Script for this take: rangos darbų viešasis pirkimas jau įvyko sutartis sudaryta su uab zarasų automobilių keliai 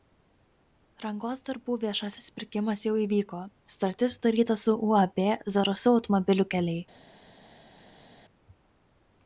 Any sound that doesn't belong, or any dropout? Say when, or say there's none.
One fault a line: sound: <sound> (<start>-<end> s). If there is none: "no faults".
no faults